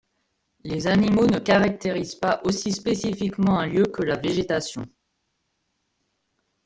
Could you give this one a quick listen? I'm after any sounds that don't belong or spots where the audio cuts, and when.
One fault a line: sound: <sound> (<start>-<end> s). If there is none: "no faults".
no faults